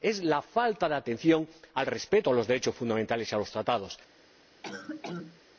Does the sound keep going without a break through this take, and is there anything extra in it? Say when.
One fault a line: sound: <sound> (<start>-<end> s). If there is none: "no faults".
sound: cough (4.6-5.4 s)